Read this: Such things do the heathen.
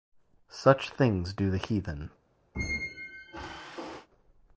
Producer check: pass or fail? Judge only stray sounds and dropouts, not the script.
fail